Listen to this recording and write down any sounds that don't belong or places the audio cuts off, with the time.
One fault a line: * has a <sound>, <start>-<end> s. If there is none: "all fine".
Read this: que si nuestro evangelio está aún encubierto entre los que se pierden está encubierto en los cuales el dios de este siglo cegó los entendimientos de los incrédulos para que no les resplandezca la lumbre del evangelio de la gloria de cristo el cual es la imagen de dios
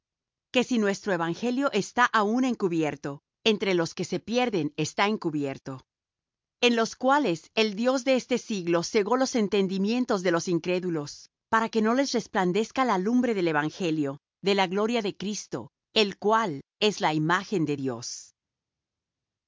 all fine